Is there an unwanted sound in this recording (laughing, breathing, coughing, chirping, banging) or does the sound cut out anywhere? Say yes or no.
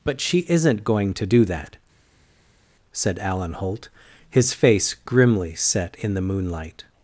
no